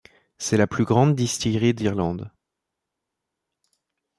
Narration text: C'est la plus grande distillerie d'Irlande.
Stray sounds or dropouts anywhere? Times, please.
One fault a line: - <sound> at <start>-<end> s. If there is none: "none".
none